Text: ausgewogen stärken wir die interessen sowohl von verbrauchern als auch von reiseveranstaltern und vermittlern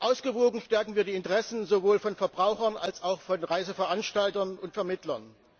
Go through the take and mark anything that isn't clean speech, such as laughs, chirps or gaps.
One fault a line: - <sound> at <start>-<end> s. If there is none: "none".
none